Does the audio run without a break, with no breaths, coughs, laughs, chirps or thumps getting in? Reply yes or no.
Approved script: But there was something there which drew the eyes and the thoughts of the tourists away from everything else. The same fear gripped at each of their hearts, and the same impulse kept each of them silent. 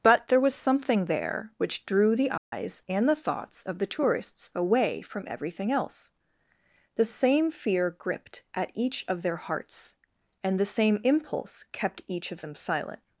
no